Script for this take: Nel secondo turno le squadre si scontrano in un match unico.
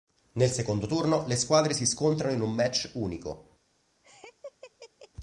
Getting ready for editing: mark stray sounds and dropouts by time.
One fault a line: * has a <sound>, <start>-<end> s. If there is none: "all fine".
* has a laugh, 4.0-5.1 s